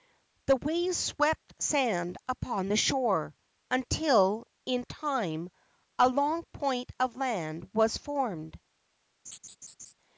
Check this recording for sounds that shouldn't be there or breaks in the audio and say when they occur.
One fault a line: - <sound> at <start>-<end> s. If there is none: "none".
- laugh at 9.2-9.9 s